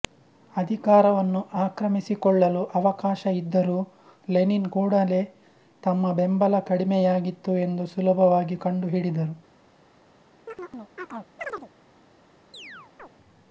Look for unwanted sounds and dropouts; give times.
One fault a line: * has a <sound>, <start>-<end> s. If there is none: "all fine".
* has a chirp, 10.5-11.7 s
* has a chirp, 12.5-13.1 s